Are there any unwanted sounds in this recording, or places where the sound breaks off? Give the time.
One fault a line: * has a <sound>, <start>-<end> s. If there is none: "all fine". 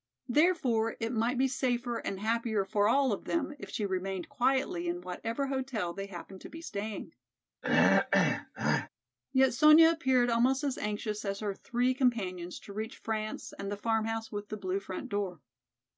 * has a throat clearing, 7.6-8.9 s